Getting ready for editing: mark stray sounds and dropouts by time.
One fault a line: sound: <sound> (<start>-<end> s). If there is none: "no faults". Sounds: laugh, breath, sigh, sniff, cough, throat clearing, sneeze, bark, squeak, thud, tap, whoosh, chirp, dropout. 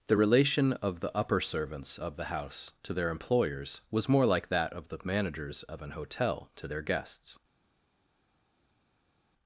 no faults